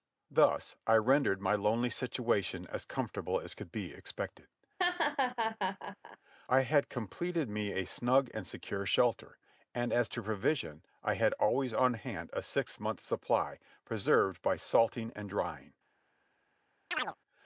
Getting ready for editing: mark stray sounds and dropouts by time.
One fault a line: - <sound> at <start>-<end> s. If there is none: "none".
- laugh at 4.8-6.2 s
- chirp at 16.9-17.2 s